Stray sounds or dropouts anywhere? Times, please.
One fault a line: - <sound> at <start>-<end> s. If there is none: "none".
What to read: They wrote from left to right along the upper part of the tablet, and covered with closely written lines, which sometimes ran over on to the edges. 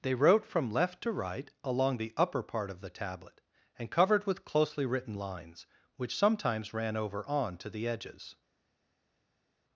none